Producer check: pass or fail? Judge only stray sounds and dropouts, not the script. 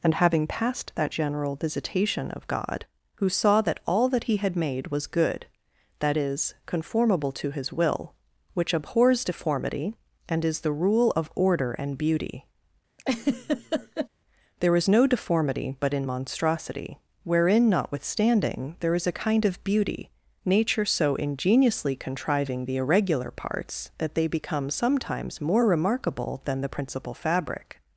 fail